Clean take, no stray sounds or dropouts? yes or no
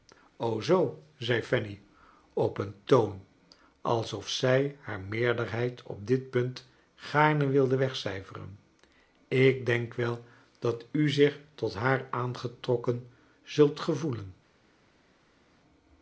yes